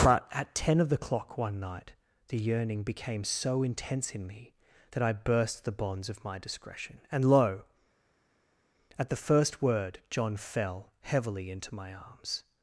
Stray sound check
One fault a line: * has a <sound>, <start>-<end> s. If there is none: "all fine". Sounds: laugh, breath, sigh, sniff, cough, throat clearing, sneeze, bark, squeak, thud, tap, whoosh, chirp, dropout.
all fine